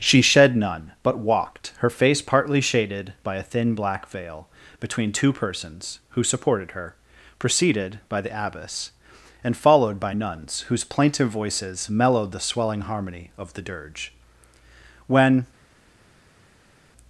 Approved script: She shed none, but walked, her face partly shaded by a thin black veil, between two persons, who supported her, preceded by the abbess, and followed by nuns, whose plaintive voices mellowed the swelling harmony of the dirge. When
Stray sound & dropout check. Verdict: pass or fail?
pass